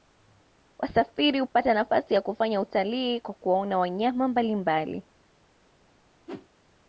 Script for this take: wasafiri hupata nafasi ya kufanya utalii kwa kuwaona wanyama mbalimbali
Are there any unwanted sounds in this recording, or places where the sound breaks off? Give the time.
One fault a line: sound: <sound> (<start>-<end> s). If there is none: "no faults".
sound: whoosh (6.3-6.5 s)